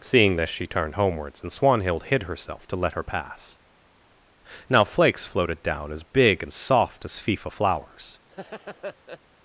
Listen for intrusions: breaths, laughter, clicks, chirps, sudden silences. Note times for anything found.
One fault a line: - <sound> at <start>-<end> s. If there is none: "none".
- laugh at 8.3-9.2 s